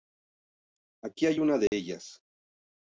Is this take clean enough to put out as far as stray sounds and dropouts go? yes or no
no